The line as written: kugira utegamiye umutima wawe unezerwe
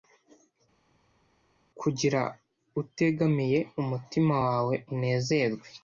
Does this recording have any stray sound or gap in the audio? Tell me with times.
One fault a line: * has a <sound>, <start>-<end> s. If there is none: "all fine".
all fine